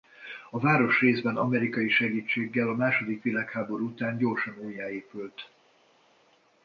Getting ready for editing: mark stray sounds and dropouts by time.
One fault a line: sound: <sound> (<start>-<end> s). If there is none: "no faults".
no faults